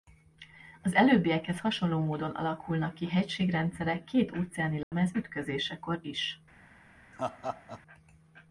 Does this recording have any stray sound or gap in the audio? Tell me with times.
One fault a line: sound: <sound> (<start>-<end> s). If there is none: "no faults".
sound: dropout (4.8-4.9 s)
sound: laugh (7.1-7.8 s)